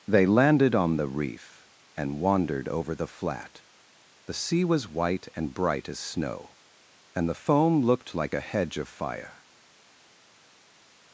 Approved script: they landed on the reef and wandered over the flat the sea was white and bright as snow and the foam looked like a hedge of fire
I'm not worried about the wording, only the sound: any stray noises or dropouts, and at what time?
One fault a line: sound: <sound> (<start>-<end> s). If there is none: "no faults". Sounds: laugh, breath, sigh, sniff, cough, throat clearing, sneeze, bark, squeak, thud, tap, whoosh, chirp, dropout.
no faults